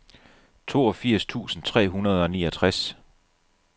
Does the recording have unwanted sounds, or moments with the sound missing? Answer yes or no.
no